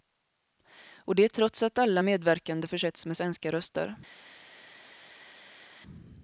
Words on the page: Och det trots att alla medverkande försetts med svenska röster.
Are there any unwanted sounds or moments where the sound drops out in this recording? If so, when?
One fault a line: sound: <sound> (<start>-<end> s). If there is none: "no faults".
no faults